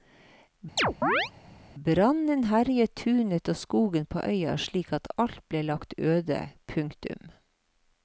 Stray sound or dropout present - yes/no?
yes